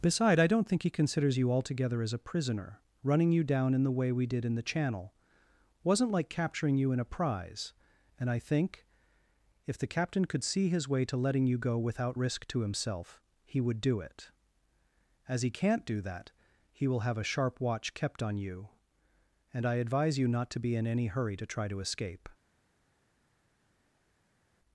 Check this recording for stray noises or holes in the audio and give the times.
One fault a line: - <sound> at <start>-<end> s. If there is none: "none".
none